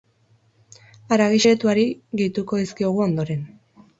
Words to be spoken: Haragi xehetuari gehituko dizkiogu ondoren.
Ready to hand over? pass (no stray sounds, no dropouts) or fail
pass